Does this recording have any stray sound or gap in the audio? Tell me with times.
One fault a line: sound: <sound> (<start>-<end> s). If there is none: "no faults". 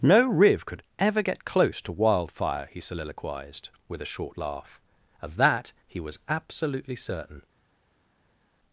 no faults